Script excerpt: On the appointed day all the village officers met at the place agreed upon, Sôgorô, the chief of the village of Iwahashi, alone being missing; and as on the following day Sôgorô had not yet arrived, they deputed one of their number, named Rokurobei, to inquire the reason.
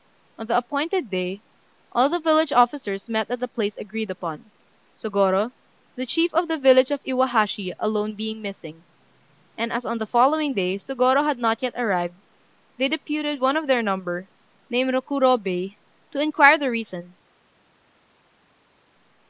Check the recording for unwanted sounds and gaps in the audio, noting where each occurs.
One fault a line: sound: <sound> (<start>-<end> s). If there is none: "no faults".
no faults